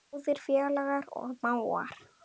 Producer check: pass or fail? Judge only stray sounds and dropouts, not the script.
pass